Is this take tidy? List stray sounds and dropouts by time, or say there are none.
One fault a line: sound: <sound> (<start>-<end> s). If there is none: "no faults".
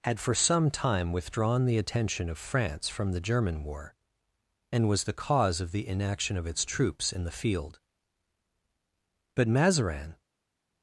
no faults